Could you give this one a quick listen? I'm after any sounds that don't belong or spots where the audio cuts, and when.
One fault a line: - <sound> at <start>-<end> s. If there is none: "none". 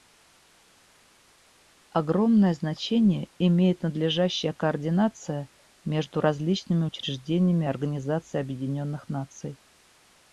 none